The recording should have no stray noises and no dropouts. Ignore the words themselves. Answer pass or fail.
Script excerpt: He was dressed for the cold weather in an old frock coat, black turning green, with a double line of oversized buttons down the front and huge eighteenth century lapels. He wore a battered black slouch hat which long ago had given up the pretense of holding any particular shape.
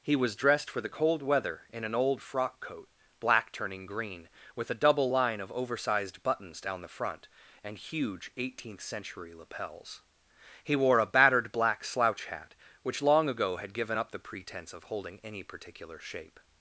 pass